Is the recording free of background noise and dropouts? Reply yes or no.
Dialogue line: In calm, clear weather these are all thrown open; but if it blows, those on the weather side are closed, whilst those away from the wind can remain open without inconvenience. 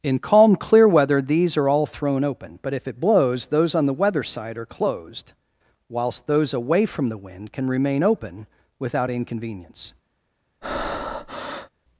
no